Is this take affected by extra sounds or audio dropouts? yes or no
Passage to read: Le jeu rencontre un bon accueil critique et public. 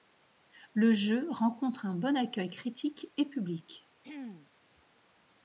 yes